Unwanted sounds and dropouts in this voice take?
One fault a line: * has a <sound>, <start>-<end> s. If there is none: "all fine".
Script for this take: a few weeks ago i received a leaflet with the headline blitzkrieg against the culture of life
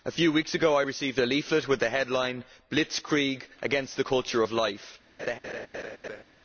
* has a laugh, 5.2-6.2 s